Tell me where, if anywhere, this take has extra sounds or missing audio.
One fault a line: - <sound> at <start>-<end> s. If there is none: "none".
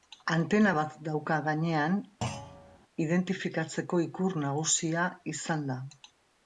- thud at 2.2-2.8 s